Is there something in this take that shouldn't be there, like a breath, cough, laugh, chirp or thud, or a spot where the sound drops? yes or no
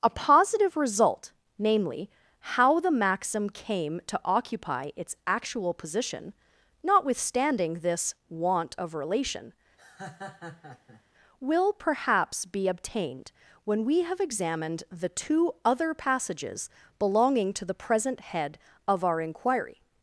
yes